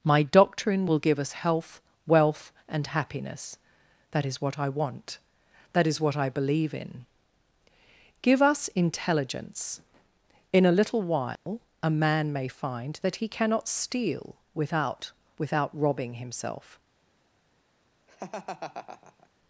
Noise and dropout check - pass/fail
fail